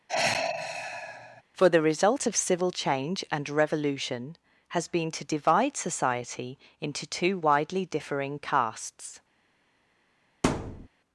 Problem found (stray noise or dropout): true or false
true